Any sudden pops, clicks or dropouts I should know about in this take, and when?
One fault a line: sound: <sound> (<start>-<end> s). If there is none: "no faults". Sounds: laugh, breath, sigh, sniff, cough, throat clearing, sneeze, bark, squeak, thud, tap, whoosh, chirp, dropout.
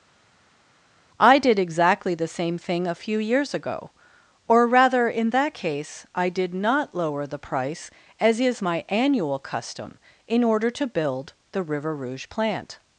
no faults